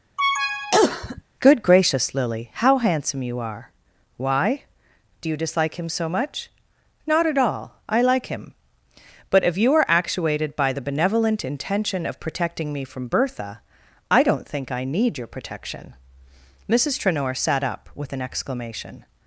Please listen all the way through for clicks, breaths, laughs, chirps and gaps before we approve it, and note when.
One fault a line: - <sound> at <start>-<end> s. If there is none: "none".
- cough at 0.2-1.2 s